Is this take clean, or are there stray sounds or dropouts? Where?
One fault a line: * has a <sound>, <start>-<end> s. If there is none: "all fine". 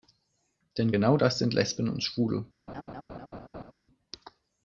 * has a laugh, 2.7-3.7 s